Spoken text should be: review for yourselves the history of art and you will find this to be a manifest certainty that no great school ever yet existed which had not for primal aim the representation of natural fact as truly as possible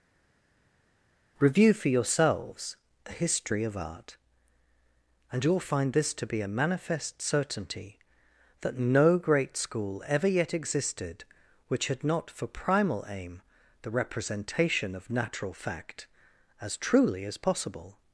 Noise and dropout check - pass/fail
pass